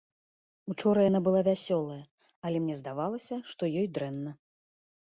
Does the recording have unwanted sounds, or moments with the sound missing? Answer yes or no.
no